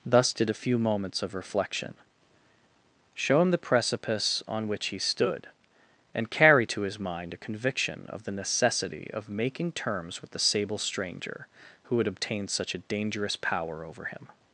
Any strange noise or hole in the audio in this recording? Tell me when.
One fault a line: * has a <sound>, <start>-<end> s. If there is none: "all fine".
all fine